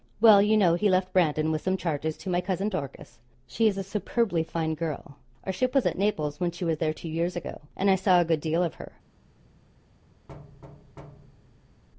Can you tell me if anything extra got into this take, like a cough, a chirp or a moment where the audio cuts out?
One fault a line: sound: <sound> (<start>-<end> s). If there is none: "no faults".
sound: thud (10.3-11.8 s)